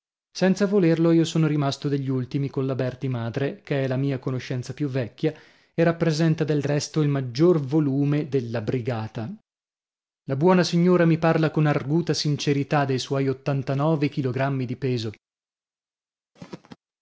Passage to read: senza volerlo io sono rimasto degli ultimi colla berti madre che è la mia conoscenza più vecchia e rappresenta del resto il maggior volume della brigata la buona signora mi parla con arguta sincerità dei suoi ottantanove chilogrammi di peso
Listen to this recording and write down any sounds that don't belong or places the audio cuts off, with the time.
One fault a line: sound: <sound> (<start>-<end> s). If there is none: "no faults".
sound: throat clearing (16.4-16.8 s)